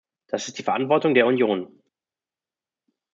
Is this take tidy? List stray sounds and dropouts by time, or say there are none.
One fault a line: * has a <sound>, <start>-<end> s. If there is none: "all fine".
all fine